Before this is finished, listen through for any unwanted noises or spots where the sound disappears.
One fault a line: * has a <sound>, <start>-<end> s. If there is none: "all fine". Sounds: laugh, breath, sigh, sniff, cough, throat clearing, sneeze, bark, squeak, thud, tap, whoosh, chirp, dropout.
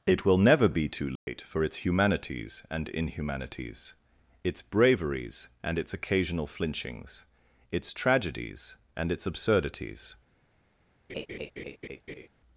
* has a dropout, 1.2-1.3 s
* has a laugh, 11.1-12.3 s